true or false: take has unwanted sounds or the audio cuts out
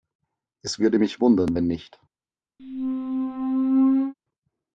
true